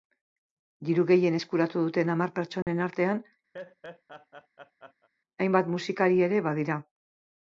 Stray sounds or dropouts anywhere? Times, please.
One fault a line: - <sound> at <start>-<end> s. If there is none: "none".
- dropout at 2.6-2.7 s
- laugh at 3.5-5.1 s